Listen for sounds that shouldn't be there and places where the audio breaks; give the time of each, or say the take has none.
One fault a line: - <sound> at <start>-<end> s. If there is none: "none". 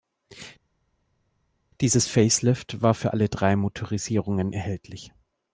none